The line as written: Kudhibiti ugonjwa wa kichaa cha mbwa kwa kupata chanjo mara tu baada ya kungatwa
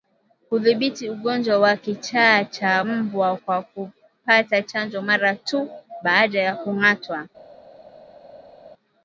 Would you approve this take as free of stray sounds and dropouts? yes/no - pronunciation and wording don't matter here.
yes